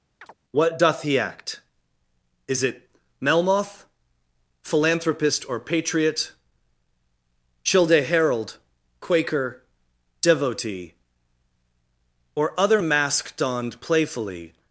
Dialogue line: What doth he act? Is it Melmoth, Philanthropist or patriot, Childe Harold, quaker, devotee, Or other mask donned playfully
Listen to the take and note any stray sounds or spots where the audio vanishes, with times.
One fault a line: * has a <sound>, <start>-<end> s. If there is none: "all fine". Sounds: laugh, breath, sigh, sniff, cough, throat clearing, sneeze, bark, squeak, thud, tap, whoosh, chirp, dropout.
* has a chirp, 0.2-0.3 s